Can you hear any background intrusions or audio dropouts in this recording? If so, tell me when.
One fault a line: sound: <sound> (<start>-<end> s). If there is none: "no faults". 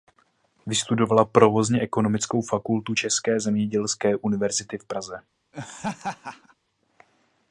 sound: laugh (5.5-6.5 s)